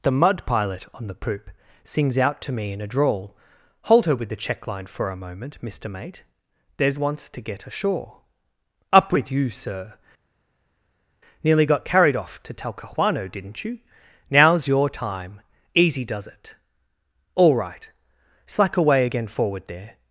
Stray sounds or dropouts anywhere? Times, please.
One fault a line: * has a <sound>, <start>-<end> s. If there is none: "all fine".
all fine